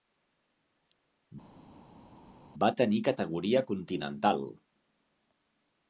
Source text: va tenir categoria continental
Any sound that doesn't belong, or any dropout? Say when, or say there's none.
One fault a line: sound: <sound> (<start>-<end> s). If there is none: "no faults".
no faults